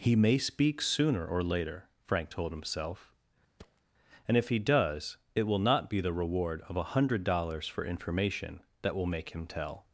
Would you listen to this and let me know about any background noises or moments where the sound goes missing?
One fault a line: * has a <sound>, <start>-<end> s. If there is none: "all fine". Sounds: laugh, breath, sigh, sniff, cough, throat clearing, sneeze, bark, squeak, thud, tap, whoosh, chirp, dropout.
* has a thud, 3.6-3.8 s